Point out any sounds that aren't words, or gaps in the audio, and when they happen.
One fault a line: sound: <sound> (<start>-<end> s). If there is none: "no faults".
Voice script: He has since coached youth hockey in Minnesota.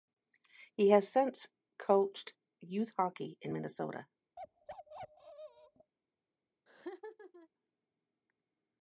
sound: bark (4.4-5.9 s)
sound: laugh (6.7-7.5 s)